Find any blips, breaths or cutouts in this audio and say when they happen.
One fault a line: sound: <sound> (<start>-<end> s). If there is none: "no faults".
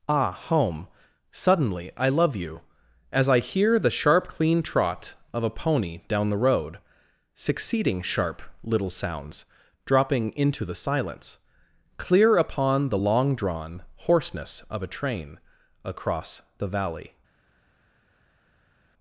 no faults